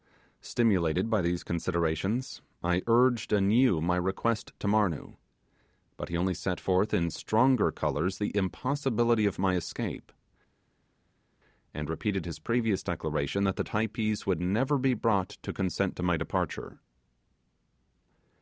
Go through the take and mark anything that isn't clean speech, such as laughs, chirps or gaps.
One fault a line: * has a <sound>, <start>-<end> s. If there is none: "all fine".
all fine